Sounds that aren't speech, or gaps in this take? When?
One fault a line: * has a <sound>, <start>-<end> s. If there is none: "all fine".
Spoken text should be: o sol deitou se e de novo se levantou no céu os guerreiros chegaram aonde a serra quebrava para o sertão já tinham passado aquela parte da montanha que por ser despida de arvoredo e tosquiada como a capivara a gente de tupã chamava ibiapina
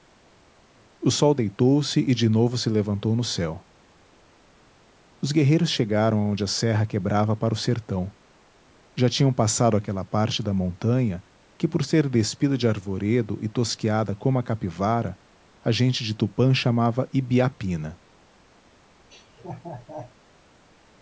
* has a laugh, 19.1-20.1 s